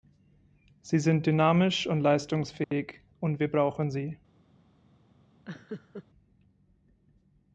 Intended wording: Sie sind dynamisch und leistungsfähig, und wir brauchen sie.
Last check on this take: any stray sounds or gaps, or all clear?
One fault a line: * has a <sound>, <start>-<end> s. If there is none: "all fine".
* has a dropout, 2.6-2.7 s
* has a laugh, 5.5-6.0 s